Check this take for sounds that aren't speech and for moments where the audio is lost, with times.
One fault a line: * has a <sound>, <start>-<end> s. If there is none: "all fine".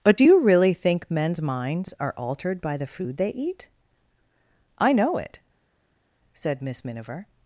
all fine